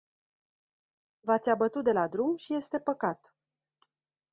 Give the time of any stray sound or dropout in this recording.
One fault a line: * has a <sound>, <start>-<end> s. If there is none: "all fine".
all fine